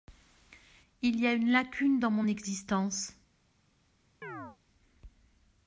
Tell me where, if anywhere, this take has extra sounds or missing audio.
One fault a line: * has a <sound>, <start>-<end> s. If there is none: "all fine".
* has a chirp, 4.2-4.6 s